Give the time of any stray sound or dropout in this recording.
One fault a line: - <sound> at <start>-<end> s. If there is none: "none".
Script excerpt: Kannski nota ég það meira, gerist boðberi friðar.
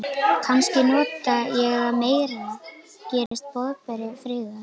- dropout at 3.3-3.3 s